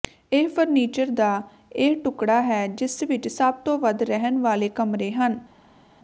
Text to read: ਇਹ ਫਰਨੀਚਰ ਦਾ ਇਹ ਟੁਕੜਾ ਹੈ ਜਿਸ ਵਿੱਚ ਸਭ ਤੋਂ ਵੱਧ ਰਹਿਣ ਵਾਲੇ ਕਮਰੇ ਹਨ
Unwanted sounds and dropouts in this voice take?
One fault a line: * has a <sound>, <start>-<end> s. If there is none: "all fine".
all fine